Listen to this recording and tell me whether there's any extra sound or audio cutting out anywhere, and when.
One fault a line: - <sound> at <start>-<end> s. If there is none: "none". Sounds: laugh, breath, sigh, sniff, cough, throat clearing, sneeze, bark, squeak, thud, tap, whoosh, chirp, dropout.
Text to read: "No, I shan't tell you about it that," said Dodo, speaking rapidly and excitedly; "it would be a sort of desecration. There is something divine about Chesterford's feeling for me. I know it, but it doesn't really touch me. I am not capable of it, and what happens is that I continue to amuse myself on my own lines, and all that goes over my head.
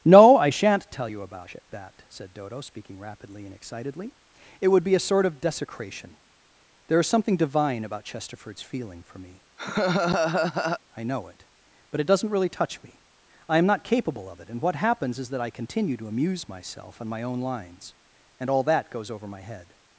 - laugh at 9.6-10.8 s